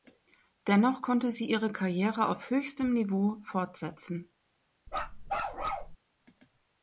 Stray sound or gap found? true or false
true